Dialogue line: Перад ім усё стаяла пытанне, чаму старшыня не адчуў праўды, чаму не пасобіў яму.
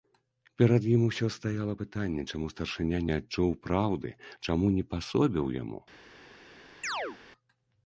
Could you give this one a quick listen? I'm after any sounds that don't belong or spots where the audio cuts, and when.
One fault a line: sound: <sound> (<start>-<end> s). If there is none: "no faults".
sound: chirp (6.8-7.2 s)